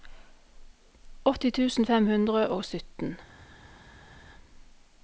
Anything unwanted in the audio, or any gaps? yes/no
no